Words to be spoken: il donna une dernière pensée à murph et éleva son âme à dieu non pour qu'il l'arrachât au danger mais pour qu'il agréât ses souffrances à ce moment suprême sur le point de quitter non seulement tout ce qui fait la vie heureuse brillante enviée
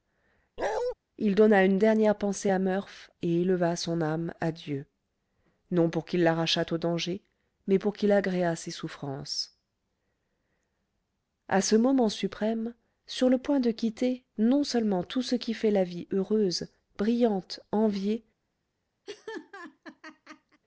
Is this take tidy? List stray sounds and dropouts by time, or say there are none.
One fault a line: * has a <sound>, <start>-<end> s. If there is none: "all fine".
* has a bark, 0.6-0.9 s
* has a laugh, 19.1-20.6 s